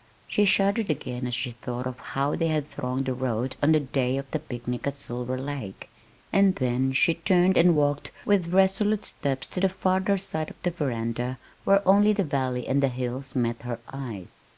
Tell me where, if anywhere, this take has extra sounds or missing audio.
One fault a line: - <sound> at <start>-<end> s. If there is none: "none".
none